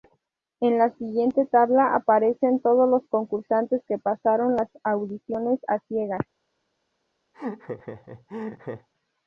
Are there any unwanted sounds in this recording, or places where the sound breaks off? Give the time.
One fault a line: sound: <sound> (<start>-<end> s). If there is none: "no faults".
sound: laugh (7.3-8.9 s)